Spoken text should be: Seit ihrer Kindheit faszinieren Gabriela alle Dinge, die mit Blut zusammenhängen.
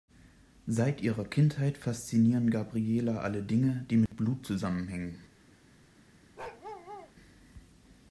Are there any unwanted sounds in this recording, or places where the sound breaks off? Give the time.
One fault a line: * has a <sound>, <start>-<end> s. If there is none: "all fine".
* has a dropout, 4.1-4.1 s
* has a bark, 6.4-7.1 s